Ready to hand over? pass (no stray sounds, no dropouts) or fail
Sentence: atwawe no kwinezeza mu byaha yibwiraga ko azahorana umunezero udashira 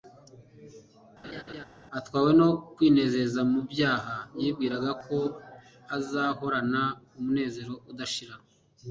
fail